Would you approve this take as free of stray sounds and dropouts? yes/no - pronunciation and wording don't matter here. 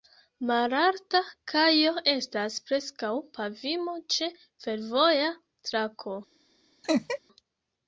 no